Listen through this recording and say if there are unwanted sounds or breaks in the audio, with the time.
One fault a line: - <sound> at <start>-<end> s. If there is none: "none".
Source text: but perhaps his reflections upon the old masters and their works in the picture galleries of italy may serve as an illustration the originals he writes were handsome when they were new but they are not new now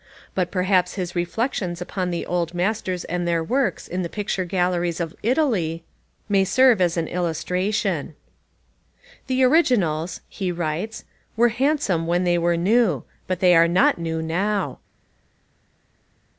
none